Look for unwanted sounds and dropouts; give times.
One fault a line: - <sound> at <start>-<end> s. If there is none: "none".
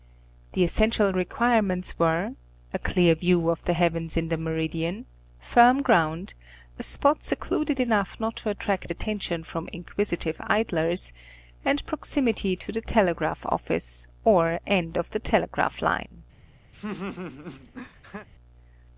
- laugh at 16.7-18.3 s